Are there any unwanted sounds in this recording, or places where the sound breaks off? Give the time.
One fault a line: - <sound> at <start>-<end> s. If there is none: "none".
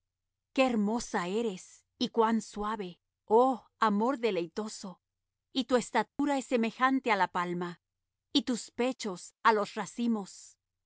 - dropout at 6.1-6.2 s